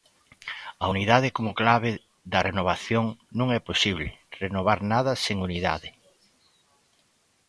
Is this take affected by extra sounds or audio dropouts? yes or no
no